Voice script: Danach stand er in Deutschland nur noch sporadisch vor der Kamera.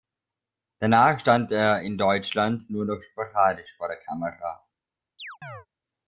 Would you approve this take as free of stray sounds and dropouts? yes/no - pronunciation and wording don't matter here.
no